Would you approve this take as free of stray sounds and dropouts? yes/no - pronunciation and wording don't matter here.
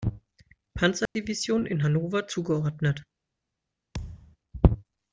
no